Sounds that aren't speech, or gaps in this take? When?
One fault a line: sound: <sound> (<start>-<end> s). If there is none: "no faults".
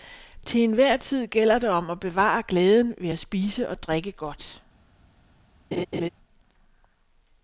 sound: laugh (5.7-6.1 s)